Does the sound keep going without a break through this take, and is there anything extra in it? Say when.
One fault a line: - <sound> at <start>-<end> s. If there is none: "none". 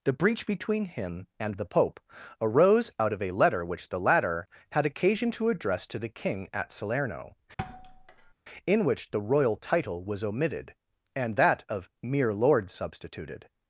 - thud at 7.6-8.3 s